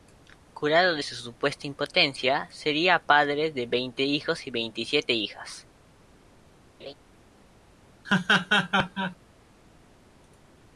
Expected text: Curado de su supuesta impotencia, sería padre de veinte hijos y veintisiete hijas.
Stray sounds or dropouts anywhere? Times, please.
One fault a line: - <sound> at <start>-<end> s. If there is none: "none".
- laugh at 6.8-6.9 s
- laugh at 8.0-9.2 s